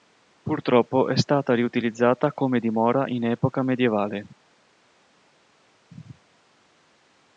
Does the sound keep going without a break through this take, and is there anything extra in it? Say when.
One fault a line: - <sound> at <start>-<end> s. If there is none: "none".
none